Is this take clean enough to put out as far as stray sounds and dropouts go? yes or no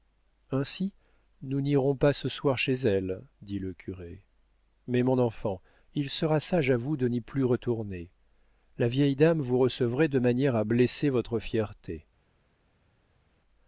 yes